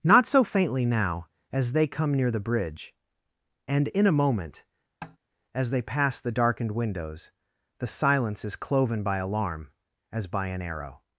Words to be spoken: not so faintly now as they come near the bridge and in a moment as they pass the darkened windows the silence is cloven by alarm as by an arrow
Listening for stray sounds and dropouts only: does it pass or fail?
fail